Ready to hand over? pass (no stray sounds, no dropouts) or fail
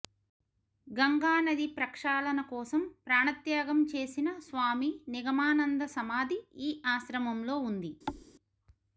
fail